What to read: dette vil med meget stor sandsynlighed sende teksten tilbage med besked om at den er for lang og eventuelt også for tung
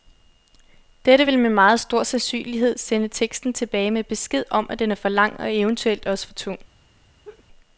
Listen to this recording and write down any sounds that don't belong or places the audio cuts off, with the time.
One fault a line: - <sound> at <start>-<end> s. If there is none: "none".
- laugh at 7.2-7.5 s